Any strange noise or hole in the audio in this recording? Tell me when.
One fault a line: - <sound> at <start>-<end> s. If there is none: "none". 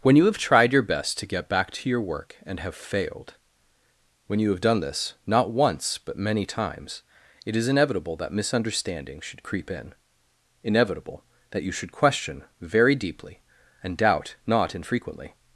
none